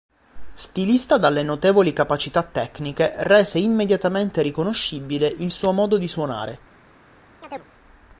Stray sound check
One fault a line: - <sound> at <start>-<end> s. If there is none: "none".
- chirp at 7.4-7.7 s